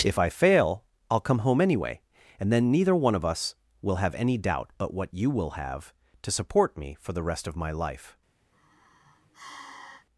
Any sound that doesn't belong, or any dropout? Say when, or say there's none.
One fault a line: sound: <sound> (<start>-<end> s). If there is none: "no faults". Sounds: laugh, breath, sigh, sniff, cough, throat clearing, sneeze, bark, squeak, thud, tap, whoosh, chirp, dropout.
sound: sigh (8.5-10.1 s)